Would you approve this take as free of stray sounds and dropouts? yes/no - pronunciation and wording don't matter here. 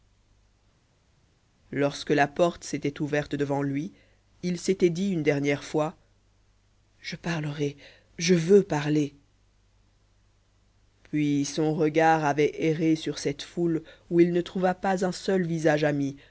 yes